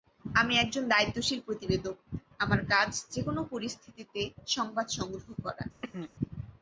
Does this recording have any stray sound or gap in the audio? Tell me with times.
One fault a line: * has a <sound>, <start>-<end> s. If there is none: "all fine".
* has a throat clearing, 5.8-6.1 s